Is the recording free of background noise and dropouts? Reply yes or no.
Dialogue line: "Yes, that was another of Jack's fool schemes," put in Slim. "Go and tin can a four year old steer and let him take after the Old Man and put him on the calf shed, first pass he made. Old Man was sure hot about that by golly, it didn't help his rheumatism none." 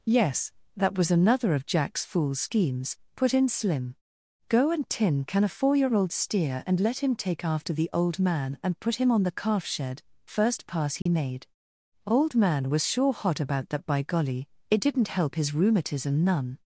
no